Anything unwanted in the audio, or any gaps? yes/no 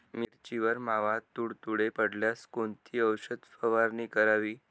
no